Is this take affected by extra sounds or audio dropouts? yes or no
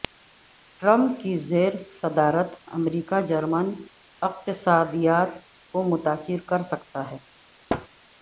yes